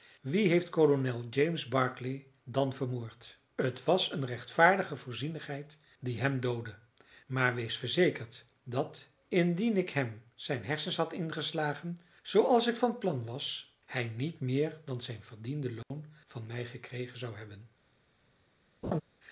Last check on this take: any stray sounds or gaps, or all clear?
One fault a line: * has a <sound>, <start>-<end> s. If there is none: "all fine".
* has a dropout, 15.8-15.9 s
* has a laugh, 18.8-19.0 s